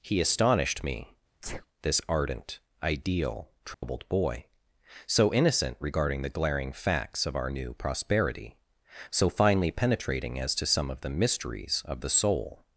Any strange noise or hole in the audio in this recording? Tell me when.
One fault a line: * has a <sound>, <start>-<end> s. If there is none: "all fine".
* has a sneeze, 1.4-1.7 s
* has a dropout, 3.7-3.8 s